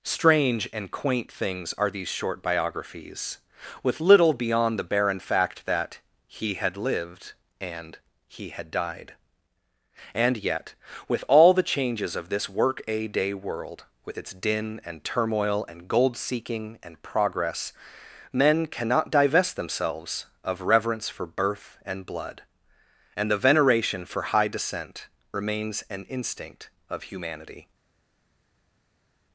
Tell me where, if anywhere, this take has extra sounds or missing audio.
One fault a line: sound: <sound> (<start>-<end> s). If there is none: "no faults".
no faults